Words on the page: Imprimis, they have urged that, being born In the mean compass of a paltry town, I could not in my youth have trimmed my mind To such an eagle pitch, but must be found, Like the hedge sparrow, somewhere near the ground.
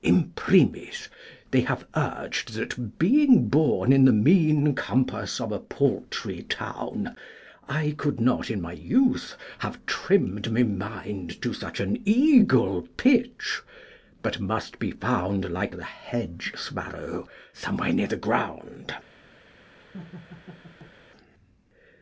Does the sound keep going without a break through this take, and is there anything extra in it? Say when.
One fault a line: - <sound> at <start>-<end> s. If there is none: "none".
- laugh at 19.8-20.9 s